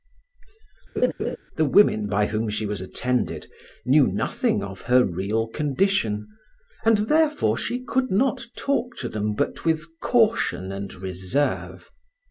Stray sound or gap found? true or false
true